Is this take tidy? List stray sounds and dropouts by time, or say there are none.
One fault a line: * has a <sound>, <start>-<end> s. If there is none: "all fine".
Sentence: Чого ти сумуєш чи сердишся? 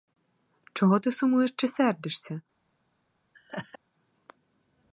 * has a laugh, 3.3-3.8 s